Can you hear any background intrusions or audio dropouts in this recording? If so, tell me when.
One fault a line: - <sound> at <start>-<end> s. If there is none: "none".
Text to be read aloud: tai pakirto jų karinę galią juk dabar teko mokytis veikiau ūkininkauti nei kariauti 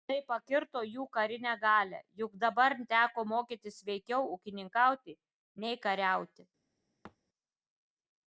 - thud at 7.0-7.2 s